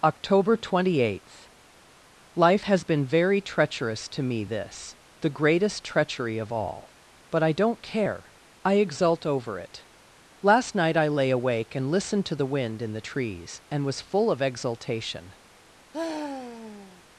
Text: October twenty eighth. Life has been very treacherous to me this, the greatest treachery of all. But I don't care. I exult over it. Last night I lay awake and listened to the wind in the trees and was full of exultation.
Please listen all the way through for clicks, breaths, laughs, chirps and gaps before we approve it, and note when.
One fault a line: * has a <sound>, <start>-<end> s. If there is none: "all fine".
* has a sigh, 15.9-17.0 s